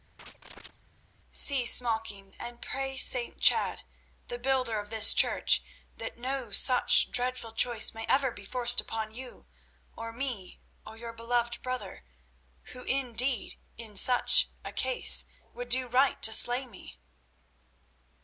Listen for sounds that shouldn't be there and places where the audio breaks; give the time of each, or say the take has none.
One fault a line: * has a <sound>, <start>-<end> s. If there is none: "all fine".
* has a chirp, 0.2-0.8 s